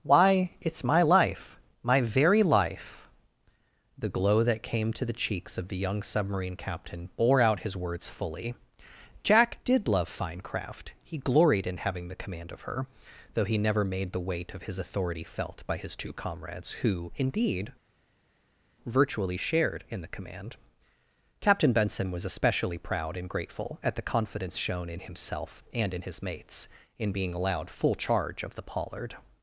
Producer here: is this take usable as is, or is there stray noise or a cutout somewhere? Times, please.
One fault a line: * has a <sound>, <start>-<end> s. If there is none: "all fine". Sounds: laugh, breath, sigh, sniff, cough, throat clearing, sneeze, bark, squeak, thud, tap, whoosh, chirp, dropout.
all fine